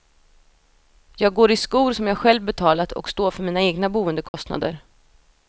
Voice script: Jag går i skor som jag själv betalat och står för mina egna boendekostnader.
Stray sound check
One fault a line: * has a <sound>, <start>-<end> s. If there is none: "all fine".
* has a dropout, 4.3-4.3 s